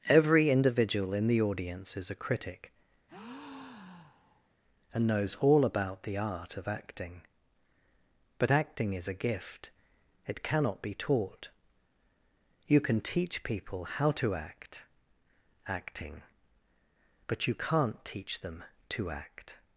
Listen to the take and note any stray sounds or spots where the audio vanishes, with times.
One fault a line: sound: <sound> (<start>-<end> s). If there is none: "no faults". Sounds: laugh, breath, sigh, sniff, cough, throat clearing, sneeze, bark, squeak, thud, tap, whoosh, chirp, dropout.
sound: breath (3.1-4.5 s)